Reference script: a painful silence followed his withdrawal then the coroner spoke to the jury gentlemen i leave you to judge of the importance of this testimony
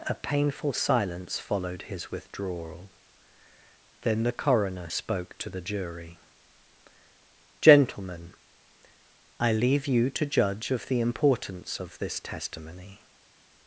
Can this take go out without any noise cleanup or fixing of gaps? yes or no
yes